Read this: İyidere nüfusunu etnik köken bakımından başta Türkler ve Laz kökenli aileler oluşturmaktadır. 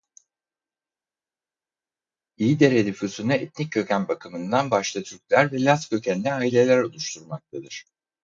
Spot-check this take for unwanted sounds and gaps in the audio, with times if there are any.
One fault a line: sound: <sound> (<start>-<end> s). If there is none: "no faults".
no faults